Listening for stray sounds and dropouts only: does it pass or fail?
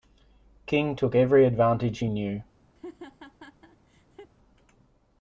fail